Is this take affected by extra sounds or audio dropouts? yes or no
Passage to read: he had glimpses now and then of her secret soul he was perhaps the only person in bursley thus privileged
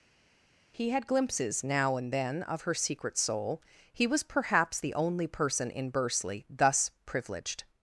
no